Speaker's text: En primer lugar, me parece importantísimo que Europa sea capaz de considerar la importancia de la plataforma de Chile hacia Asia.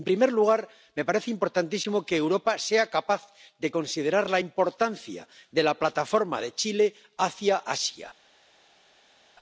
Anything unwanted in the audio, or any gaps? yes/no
no